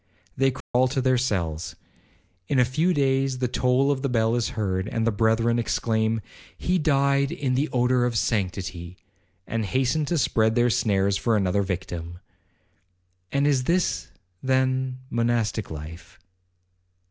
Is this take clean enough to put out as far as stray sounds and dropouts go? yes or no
no